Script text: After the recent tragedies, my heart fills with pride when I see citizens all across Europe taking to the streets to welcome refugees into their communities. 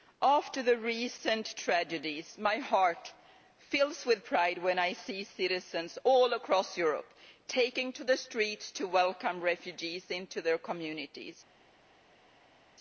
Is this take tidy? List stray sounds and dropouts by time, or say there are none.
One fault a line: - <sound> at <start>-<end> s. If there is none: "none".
none